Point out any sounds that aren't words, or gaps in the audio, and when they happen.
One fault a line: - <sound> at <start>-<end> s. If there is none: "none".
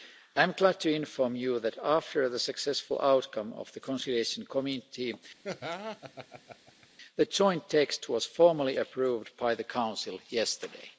- laugh at 5.4-6.9 s